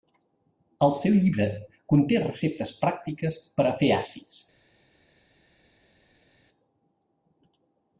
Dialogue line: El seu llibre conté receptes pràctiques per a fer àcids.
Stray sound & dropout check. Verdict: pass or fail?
pass